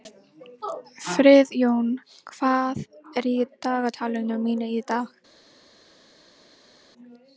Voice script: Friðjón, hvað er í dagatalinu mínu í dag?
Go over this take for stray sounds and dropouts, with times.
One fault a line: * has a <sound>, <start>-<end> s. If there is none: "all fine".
all fine